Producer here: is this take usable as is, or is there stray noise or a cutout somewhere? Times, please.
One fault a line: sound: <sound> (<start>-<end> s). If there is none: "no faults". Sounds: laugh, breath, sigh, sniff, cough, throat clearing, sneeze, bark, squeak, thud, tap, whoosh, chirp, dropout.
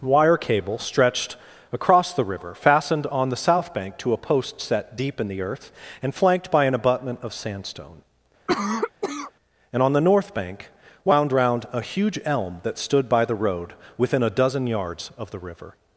sound: cough (8.5-9.3 s)